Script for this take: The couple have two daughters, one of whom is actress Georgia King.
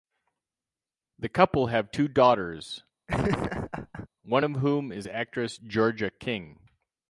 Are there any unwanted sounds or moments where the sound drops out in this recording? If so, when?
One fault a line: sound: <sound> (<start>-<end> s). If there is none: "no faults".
sound: laugh (3.1-4.1 s)